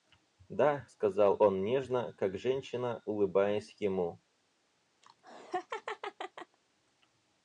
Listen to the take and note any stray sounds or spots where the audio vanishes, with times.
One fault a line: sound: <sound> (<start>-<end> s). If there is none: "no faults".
sound: laugh (5.0-6.6 s)